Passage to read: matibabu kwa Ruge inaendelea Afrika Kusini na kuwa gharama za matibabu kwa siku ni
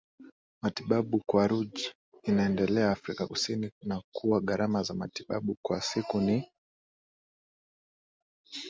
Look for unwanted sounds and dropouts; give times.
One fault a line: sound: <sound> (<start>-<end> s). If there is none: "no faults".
no faults